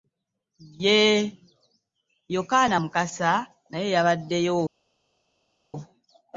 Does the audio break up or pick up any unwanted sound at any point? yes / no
no